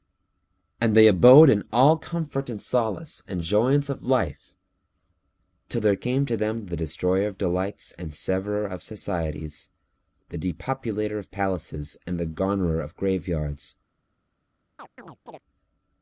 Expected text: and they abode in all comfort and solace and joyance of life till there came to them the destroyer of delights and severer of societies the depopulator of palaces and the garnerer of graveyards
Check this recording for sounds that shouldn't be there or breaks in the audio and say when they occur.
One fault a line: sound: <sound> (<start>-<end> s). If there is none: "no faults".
sound: chirp (14.8-15.4 s)